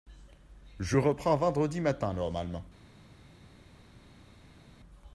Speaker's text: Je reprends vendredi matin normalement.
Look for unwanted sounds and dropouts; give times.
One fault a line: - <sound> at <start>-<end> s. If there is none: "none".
none